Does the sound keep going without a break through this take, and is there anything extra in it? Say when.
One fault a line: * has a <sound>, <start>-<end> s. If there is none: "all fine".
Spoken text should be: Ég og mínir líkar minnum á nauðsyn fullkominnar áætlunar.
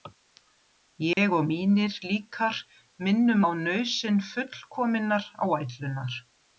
* has a dropout, 1.1-1.2 s